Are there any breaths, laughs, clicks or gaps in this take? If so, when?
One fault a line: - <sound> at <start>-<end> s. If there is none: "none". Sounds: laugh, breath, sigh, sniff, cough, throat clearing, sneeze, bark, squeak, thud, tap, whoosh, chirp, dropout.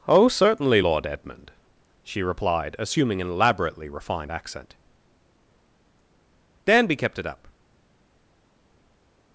none